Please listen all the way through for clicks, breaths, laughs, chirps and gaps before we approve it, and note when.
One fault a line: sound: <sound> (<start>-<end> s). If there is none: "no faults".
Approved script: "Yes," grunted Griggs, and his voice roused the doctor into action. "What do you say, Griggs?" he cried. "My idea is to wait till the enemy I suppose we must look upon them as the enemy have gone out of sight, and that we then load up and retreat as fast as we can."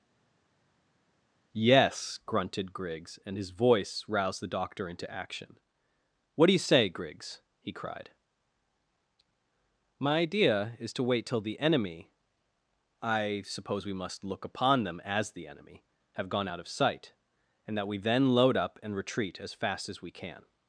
no faults